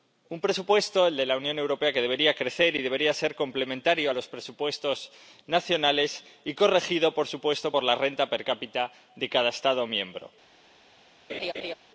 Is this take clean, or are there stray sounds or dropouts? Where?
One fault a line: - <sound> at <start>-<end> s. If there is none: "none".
- laugh at 11.3-11.7 s